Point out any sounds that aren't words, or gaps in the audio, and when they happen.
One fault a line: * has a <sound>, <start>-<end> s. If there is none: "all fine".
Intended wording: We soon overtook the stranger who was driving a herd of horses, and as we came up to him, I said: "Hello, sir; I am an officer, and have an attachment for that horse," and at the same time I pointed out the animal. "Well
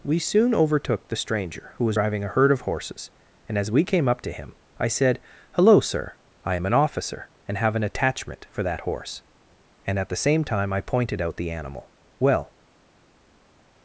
all fine